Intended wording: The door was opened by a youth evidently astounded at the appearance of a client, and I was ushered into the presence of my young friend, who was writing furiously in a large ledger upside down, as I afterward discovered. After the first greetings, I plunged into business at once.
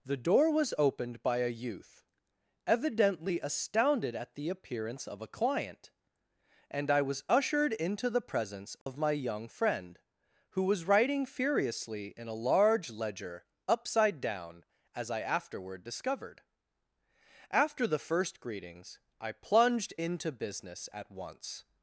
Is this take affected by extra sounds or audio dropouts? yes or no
yes